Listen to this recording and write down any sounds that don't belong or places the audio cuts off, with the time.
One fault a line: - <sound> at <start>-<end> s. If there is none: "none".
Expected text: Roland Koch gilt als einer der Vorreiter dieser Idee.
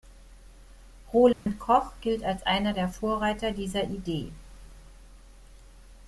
- dropout at 1.3-1.5 s